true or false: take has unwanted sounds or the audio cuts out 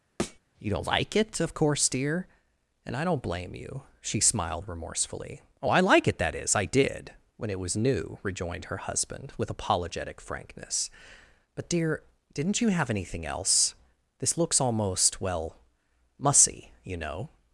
true